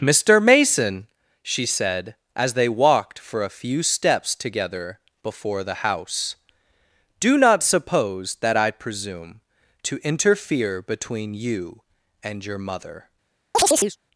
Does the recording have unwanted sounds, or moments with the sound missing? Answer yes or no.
yes